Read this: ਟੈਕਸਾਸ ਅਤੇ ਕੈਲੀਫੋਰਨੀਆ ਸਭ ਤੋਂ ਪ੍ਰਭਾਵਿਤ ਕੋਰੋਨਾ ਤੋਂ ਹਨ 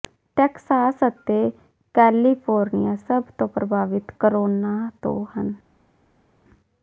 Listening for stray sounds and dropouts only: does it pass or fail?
pass